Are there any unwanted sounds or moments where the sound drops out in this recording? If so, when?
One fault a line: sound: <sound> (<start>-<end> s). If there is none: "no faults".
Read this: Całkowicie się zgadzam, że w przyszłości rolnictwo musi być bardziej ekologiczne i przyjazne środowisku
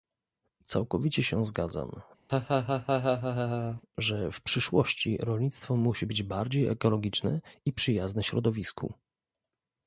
sound: laugh (2.3-3.8 s)